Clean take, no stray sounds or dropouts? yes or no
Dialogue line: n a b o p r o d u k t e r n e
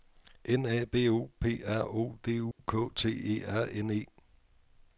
no